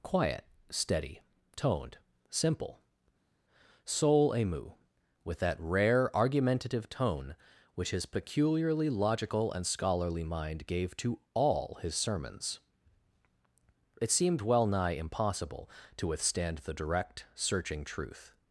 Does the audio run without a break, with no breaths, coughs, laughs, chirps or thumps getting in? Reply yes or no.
yes